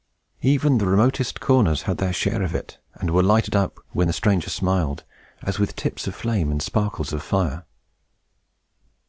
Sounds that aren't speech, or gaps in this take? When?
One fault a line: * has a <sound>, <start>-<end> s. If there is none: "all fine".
all fine